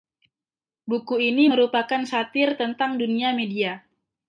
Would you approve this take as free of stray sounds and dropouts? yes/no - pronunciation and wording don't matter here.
yes